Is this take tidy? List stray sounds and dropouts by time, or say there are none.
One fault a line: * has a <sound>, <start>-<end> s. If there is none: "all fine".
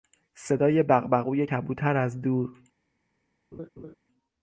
* has a laugh, 3.5-4.0 s